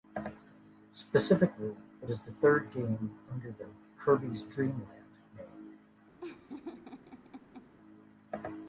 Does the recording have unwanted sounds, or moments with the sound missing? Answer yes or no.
yes